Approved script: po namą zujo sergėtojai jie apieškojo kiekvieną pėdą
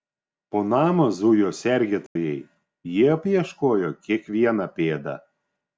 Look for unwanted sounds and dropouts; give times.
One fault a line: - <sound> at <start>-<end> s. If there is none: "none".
- dropout at 2.1-2.2 s